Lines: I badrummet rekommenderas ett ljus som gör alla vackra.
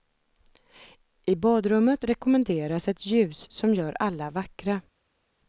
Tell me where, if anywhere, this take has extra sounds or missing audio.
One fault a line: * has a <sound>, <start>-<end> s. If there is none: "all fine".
all fine